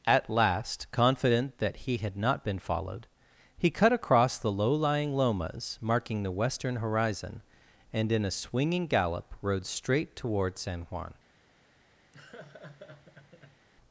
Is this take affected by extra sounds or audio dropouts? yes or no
yes